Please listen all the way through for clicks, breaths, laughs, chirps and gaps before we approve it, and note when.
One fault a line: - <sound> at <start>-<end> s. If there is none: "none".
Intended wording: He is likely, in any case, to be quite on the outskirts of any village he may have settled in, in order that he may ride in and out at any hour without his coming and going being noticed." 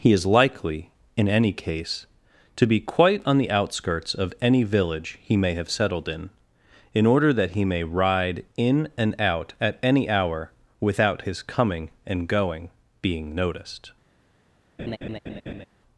- laugh at 14.8-15.7 s